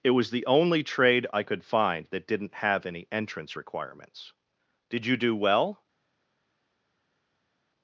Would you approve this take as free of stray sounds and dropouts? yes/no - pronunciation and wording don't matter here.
yes